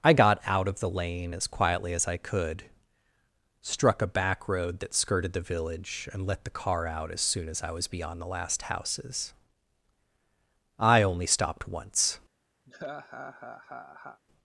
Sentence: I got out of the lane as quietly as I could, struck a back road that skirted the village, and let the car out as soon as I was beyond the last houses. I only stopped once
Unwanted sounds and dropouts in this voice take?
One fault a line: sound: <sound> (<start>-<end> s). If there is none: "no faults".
sound: laugh (12.7-14.2 s)